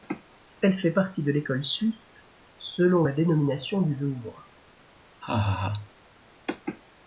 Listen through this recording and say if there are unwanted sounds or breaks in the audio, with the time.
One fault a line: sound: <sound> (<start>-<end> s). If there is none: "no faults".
sound: laugh (5.2-5.9 s)